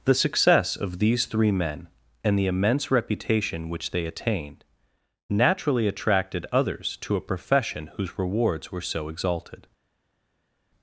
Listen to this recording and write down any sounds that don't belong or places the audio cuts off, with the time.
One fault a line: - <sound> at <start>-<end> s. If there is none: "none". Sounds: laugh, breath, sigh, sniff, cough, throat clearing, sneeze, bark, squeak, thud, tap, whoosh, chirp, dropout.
none